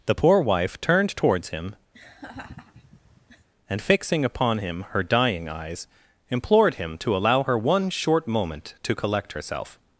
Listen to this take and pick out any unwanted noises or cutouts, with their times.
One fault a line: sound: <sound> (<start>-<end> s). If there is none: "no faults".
sound: laugh (1.9-3.5 s)